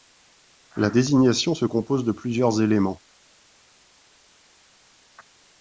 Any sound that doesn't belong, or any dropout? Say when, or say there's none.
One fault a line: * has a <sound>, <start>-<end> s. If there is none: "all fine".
all fine